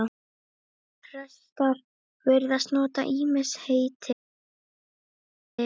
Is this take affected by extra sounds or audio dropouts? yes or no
no